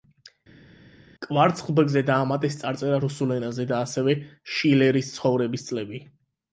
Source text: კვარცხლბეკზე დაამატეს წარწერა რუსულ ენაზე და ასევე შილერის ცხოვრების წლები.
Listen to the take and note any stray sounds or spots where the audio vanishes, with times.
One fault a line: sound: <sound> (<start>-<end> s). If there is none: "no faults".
no faults